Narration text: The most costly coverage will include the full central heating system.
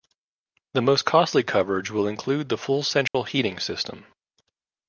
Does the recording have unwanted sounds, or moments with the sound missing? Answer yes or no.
yes